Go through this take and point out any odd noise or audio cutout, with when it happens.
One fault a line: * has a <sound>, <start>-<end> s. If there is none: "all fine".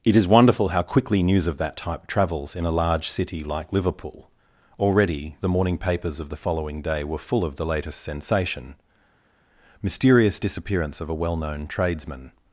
all fine